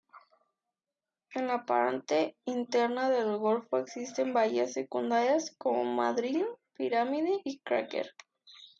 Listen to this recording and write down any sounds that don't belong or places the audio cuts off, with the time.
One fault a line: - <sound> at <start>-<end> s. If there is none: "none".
none